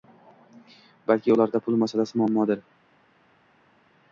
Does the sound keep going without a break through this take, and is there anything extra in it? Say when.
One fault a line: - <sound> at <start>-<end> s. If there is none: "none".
none